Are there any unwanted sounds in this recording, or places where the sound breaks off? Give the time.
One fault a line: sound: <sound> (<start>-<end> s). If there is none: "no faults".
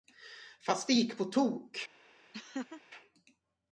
sound: laugh (2.3-2.8 s)